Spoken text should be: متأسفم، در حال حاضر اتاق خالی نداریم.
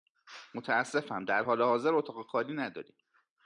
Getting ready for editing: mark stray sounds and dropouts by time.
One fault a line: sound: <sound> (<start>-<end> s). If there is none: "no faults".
no faults